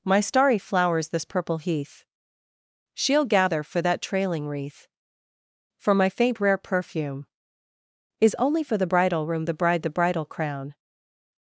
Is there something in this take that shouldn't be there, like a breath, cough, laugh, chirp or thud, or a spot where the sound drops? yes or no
no